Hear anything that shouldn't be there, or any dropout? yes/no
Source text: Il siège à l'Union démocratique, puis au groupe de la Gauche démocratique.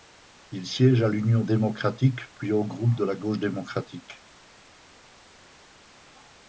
no